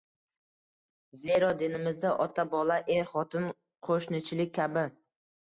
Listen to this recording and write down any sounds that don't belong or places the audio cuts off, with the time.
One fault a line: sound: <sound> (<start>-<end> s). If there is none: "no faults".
no faults